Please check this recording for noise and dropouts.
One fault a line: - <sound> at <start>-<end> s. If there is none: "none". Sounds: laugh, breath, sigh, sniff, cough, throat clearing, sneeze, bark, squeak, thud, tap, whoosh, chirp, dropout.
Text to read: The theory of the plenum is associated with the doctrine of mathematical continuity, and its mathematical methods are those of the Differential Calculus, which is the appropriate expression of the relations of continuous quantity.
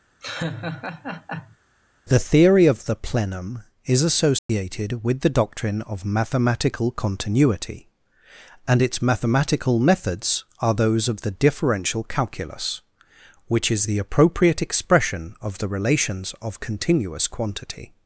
- laugh at 0.2-1.6 s
- dropout at 4.4-4.5 s